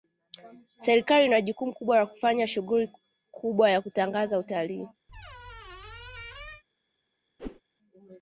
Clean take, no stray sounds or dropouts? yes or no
no